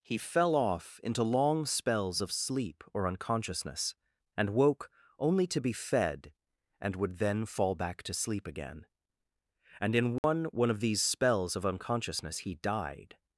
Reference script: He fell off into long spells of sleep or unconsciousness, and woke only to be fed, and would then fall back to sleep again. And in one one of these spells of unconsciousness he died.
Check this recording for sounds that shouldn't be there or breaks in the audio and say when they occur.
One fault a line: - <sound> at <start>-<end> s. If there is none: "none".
- dropout at 10.2-10.2 s